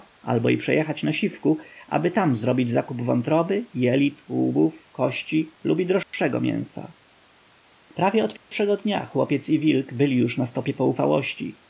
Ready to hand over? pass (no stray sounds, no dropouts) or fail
fail